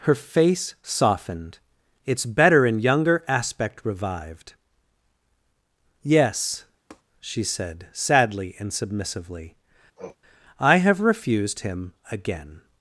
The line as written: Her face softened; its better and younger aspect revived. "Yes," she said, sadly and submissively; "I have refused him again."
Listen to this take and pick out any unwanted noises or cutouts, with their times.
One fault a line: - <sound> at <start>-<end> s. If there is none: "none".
- tap at 6.9-7.0 s
- sniff at 10.0-10.2 s